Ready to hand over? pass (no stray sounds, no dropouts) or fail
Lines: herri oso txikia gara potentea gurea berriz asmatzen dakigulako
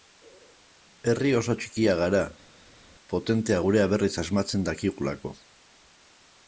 pass